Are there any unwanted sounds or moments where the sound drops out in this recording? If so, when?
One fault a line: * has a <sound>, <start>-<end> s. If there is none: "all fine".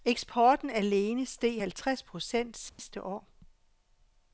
* has a dropout, 2.7-2.8 s